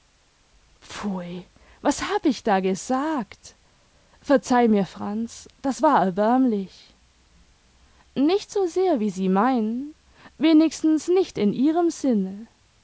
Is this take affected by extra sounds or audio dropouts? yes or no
no